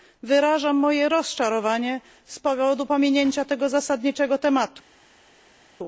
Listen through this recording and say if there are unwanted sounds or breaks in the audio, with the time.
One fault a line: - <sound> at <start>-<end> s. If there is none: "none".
none